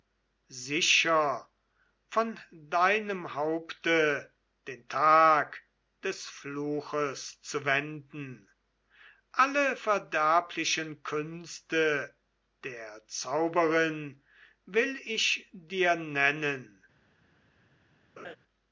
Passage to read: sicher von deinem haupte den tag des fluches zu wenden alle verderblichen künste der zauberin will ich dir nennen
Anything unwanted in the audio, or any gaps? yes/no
yes